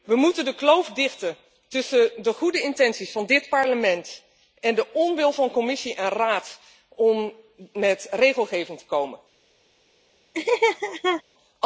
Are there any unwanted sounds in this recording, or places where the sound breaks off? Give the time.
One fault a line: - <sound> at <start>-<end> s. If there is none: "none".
- laugh at 10.3-11.2 s